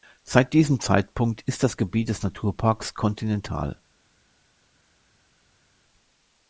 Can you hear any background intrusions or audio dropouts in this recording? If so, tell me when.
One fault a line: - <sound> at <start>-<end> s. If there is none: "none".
none